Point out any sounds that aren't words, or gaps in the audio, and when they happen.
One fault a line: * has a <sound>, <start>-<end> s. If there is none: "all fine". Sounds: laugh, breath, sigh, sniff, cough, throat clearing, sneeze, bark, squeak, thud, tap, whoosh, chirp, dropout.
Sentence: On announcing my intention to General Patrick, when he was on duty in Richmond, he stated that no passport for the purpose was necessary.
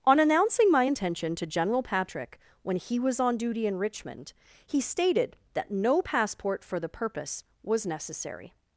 all fine